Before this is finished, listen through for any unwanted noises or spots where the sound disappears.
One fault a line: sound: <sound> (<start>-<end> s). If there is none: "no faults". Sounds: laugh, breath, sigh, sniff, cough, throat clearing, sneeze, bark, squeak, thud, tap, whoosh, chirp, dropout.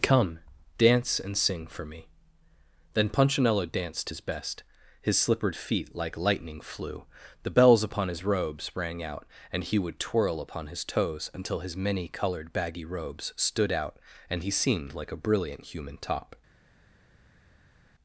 no faults